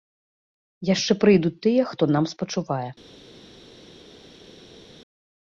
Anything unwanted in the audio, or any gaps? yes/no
no